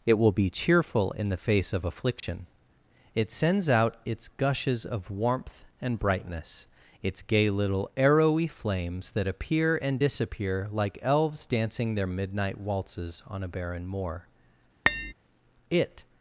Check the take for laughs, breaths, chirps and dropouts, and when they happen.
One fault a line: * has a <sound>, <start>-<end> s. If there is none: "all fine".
* has a dropout, 2.2-2.2 s
* has a tap, 14.9-15.1 s